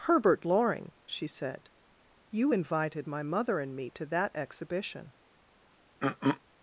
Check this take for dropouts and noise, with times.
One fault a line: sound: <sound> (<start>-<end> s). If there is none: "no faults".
sound: throat clearing (6.0-6.4 s)